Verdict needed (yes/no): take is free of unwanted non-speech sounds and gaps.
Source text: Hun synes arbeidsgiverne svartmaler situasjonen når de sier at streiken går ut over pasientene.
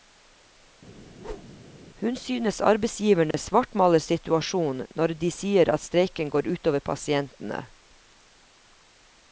no